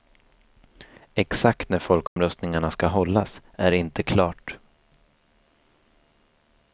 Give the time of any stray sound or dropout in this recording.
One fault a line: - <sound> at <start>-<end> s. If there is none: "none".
- dropout at 2.1-2.2 s